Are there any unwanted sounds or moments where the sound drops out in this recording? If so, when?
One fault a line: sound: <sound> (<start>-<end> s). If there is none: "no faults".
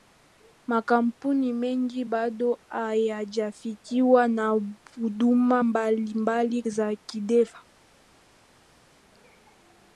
no faults